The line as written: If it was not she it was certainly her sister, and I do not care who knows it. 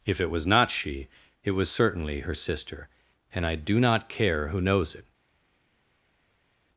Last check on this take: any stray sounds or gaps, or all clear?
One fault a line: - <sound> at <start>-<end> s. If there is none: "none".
none